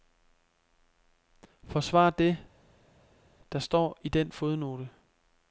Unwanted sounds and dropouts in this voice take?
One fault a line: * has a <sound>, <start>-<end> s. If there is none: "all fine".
all fine